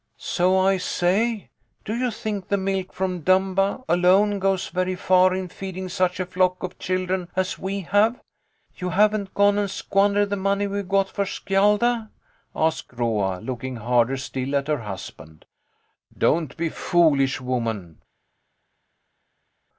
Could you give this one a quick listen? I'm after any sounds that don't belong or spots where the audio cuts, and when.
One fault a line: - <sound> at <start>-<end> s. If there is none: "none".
none